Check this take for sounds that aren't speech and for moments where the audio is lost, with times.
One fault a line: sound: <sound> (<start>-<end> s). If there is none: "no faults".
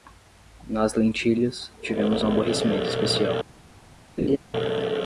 sound: laugh (4.2-4.4 s)